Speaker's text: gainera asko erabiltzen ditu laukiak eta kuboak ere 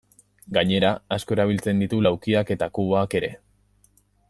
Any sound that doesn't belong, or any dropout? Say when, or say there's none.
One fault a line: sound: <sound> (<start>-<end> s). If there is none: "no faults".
no faults